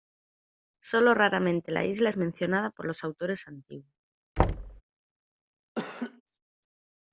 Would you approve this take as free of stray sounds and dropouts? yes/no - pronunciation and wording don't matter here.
no